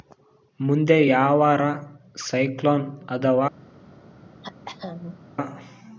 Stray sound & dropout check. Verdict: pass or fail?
fail